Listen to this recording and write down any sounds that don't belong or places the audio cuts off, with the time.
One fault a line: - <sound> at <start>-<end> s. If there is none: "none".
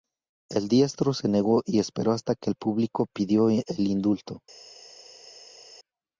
none